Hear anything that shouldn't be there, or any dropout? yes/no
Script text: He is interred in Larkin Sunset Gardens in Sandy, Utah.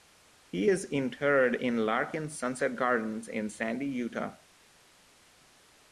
no